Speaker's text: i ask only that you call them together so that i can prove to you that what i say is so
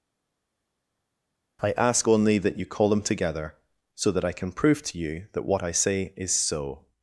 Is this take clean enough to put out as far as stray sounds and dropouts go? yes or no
yes